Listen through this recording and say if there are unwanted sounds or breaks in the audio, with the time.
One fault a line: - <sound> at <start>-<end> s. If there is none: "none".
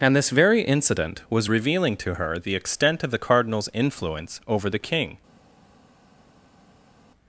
none